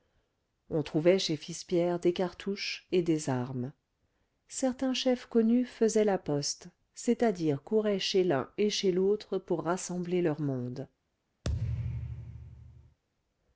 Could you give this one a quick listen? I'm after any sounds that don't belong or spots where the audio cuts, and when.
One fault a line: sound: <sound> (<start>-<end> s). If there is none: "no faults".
sound: thud (11.4-13.0 s)